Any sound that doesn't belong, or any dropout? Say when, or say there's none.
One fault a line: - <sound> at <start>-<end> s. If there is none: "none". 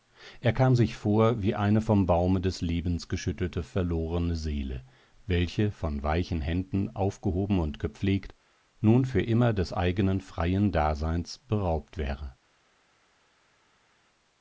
none